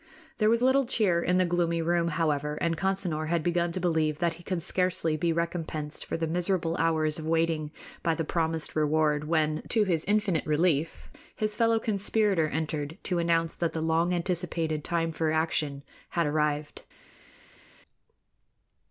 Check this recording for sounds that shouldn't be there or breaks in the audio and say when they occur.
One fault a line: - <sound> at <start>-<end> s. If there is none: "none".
none